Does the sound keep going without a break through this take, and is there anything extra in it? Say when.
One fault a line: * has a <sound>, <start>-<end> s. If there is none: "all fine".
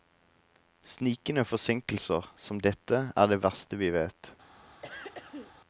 * has a throat clearing, 4.8-5.6 s